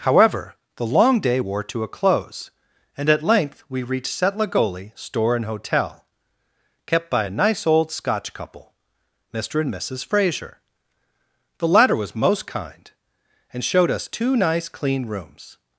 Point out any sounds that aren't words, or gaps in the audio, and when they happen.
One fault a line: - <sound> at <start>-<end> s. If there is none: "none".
none